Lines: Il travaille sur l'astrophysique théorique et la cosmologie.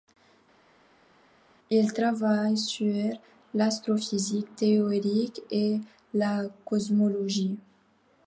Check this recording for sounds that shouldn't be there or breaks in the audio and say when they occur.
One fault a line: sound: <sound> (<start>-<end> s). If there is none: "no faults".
no faults